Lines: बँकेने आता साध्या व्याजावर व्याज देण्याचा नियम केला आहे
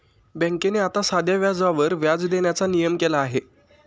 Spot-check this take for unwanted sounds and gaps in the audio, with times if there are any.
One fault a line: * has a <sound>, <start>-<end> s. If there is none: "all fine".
all fine